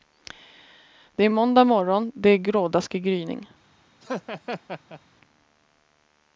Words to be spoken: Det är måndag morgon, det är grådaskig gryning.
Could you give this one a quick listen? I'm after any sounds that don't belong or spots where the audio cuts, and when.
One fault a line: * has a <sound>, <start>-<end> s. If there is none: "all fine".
* has a laugh, 4.0-5.0 s